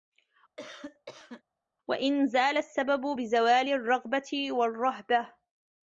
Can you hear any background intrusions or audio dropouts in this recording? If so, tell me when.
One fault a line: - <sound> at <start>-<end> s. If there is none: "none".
- cough at 0.6-1.4 s